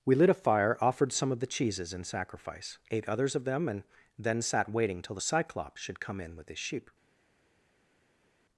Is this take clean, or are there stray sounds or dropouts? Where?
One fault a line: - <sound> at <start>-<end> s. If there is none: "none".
none